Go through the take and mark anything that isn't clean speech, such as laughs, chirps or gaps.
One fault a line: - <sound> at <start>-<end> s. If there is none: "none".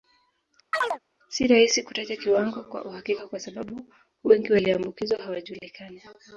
- chirp at 0.7-1.0 s